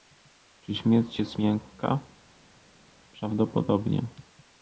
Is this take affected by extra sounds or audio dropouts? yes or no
no